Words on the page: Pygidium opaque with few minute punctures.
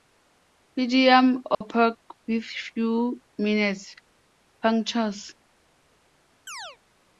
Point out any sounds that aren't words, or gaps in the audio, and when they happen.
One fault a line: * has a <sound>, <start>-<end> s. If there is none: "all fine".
* has a dropout, 1.5-1.6 s
* has a chirp, 6.5-6.8 s